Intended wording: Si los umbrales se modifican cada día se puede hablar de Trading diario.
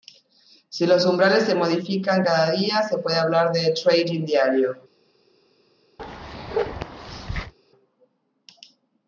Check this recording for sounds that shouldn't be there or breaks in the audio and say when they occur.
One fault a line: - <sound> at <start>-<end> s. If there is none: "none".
- bark at 6.0-7.5 s